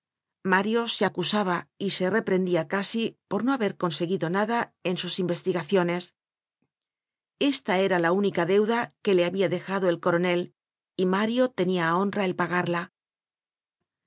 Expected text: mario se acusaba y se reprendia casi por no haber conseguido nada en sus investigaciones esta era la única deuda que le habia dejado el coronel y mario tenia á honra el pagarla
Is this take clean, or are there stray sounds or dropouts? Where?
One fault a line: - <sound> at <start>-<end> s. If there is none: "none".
none